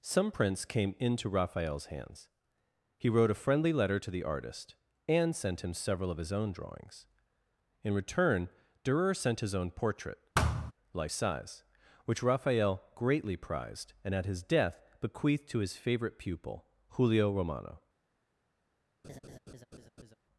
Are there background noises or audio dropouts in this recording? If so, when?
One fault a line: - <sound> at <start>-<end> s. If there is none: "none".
- thud at 10.3-10.7 s
- laugh at 19.0-20.2 s